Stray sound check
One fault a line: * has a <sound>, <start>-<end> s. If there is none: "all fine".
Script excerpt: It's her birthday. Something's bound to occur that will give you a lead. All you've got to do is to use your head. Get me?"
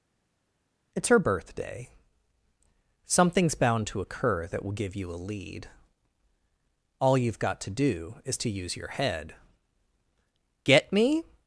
all fine